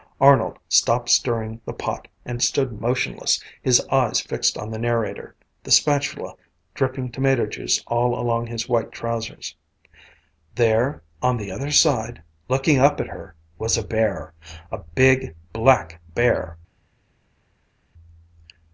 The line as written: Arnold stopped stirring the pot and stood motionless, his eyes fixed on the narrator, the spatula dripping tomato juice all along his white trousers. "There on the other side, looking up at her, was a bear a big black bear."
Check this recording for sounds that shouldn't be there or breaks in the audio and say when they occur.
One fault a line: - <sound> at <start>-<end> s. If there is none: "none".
none